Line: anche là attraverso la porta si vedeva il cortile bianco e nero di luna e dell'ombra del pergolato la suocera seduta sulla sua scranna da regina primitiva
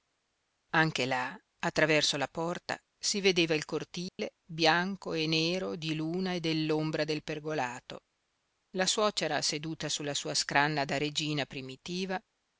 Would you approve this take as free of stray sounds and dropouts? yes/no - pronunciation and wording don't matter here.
no